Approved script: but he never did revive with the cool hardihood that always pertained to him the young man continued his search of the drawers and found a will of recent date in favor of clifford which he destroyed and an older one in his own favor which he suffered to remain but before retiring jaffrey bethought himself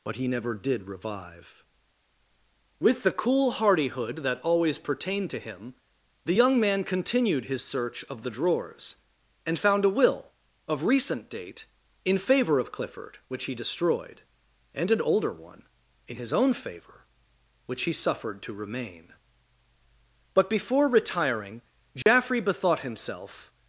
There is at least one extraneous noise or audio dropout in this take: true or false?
true